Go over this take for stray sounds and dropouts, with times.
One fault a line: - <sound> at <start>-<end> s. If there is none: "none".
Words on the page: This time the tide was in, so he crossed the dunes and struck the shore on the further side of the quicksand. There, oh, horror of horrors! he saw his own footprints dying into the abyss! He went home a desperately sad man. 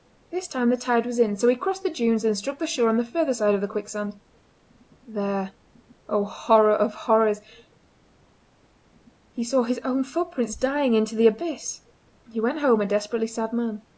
none